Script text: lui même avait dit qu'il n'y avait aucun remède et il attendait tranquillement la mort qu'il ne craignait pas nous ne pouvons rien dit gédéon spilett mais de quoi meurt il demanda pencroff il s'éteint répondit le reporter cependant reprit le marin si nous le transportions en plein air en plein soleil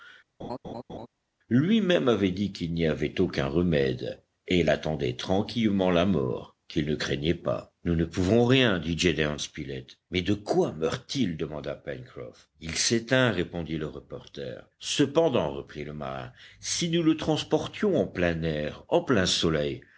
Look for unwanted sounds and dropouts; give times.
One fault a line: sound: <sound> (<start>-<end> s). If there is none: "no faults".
sound: laugh (0.4-1.1 s)